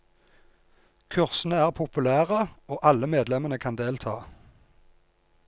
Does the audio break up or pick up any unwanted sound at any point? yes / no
no